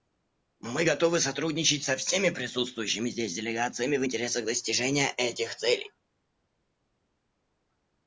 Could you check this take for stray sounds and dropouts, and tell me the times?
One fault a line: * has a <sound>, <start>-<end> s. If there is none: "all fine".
all fine